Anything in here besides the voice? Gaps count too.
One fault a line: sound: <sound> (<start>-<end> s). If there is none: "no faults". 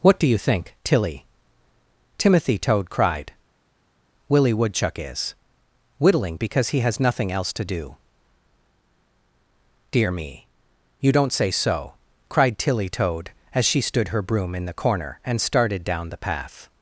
no faults